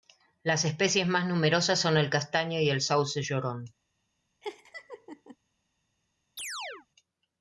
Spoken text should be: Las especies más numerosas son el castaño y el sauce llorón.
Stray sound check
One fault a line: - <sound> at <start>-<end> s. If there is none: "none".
- laugh at 4.4-5.4 s
- chirp at 6.4-6.9 s